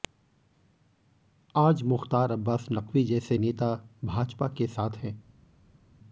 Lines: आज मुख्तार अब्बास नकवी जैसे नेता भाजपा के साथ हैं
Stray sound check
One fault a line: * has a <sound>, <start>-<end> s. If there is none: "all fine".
all fine